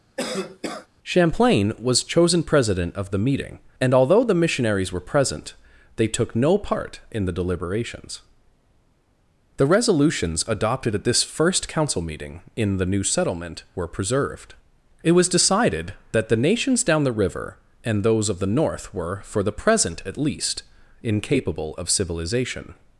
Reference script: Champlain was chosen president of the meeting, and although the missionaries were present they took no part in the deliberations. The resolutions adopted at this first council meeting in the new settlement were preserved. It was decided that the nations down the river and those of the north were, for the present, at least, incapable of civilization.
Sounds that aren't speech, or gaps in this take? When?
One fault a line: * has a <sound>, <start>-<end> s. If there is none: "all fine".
* has a cough, 0.2-0.9 s